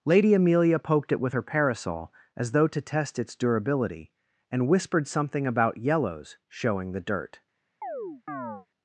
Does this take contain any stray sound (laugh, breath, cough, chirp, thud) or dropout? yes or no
yes